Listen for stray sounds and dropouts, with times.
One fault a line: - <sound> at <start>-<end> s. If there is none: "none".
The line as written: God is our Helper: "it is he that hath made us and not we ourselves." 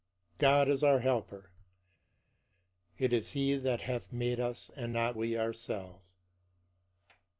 none